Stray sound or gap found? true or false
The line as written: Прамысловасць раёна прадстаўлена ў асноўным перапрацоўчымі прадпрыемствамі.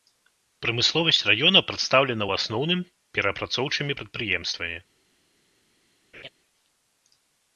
true